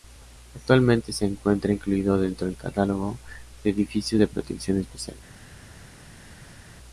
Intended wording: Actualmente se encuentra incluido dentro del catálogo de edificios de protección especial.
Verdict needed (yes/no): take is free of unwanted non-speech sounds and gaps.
yes